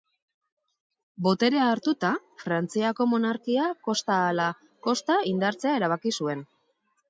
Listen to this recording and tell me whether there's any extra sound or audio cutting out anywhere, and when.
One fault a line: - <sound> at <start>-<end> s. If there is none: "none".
none